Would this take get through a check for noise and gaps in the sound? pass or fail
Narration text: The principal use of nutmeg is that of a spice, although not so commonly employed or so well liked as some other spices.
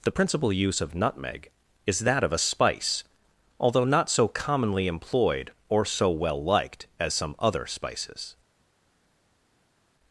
pass